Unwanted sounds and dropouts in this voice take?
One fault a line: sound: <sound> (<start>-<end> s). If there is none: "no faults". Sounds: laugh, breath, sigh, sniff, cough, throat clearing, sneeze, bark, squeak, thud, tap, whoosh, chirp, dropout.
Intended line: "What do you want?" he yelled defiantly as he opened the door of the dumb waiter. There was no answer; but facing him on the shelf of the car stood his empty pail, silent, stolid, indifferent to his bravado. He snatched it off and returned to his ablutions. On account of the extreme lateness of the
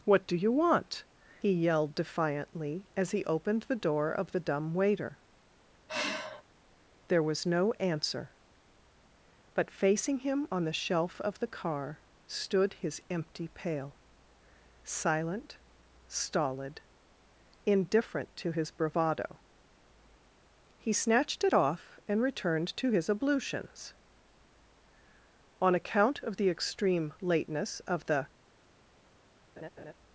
sound: sigh (5.9-6.4 s)
sound: laugh (29.6-29.9 s)